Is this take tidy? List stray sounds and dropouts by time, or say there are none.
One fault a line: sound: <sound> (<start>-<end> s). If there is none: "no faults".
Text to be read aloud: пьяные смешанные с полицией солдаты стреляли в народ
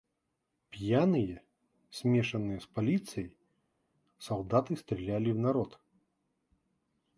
no faults